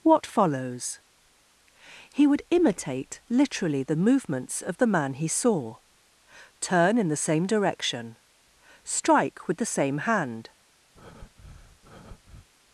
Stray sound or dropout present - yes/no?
yes